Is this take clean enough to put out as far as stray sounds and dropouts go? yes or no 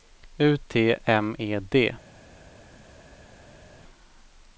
yes